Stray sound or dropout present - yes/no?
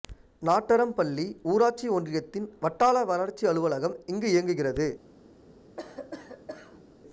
yes